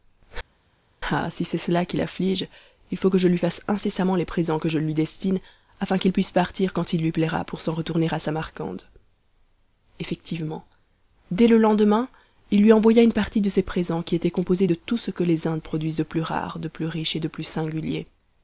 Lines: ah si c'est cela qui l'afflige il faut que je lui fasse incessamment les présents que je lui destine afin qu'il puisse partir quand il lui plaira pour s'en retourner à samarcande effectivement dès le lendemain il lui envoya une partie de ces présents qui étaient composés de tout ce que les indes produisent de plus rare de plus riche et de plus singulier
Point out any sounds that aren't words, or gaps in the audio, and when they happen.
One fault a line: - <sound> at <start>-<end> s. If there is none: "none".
none